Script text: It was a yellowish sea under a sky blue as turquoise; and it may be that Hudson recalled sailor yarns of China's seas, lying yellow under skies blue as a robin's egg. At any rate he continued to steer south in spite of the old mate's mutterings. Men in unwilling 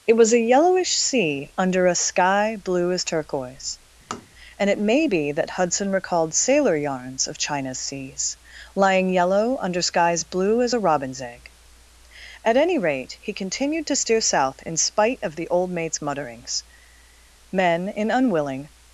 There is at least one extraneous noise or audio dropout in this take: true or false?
true